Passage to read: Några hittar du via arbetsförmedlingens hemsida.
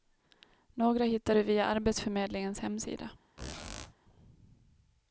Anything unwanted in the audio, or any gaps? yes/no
yes